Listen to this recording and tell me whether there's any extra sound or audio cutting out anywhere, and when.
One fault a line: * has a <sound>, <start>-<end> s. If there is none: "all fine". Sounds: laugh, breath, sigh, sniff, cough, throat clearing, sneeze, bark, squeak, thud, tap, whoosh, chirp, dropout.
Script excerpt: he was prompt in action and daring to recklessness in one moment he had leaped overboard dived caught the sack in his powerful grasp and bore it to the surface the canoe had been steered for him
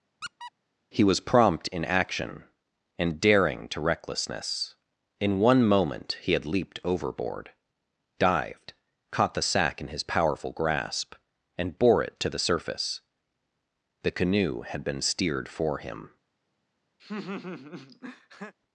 * has a squeak, 0.2-0.5 s
* has a laugh, 17.0-18.5 s